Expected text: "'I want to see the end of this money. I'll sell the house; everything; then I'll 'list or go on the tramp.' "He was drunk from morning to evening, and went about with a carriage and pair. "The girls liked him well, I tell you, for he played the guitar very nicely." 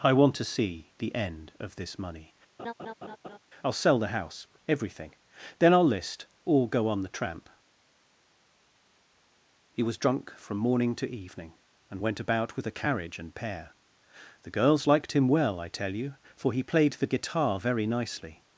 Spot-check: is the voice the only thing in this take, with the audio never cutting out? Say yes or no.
no